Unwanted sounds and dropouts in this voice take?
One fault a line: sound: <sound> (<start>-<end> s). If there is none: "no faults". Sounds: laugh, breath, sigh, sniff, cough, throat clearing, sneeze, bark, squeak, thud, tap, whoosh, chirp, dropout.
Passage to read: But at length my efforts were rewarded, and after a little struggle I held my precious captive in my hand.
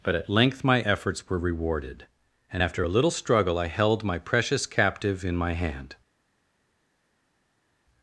no faults